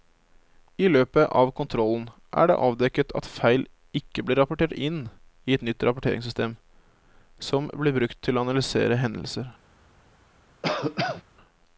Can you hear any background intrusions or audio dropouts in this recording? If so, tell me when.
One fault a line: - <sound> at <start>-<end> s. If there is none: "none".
- cough at 10.6-11.2 s